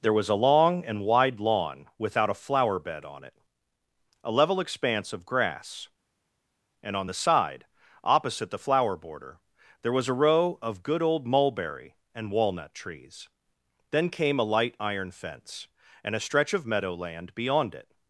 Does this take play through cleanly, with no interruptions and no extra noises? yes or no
yes